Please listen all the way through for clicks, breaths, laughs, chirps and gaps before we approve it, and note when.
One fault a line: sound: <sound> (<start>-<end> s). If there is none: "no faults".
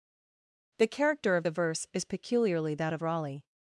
no faults